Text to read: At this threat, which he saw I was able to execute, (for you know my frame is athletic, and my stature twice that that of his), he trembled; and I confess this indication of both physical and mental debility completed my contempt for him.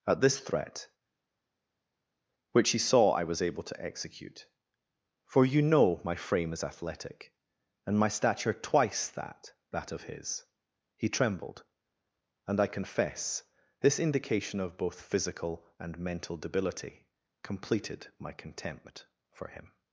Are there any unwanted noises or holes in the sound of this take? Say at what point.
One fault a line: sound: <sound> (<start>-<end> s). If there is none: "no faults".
no faults